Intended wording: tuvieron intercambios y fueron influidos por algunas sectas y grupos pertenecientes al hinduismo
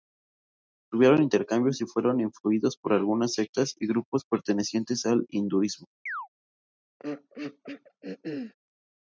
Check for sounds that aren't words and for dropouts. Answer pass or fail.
fail